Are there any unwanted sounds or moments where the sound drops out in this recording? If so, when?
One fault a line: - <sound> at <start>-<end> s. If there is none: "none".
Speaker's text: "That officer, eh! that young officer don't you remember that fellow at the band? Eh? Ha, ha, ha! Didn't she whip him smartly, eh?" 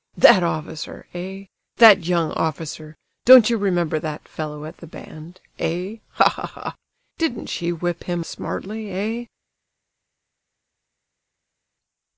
none